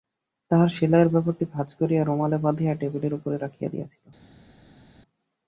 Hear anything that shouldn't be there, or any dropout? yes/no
no